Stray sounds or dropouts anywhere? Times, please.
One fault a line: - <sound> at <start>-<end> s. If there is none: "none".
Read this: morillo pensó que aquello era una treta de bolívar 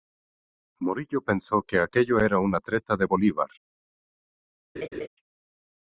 - laugh at 4.8-5.1 s